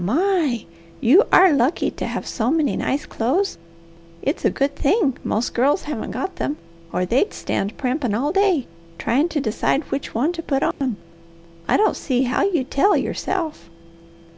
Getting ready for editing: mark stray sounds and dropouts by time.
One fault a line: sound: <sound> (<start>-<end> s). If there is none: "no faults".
sound: dropout (10.7-10.8 s)